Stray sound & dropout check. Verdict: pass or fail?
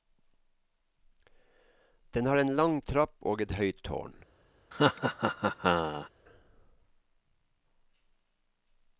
fail